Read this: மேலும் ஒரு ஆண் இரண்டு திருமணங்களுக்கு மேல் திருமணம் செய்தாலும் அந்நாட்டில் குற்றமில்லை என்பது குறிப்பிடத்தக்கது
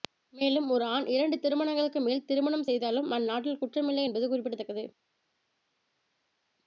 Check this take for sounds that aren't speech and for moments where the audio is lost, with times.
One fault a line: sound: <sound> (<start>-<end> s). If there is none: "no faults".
no faults